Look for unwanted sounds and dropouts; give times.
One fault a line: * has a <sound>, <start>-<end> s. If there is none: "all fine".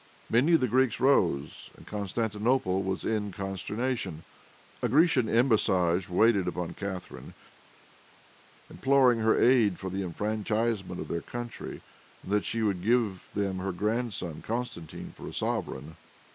all fine